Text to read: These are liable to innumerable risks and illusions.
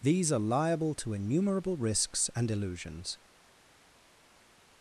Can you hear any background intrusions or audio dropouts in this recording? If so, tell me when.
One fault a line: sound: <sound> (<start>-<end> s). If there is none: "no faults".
no faults